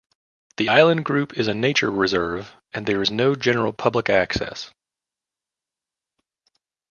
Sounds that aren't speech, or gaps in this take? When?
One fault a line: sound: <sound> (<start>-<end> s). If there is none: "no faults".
no faults